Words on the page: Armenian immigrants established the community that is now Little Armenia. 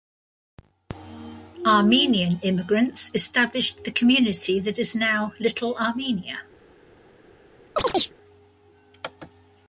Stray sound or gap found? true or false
true